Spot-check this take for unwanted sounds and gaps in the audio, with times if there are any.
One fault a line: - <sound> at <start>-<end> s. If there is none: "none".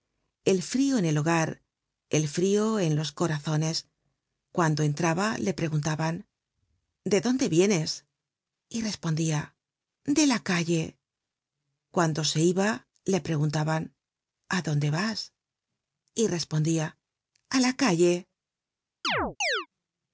- chirp at 19.0-19.7 s